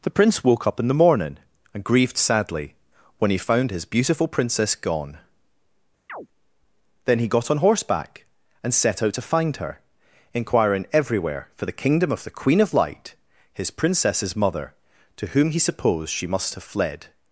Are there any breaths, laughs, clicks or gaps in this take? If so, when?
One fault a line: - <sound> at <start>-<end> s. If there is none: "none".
- chirp at 6.1-6.3 s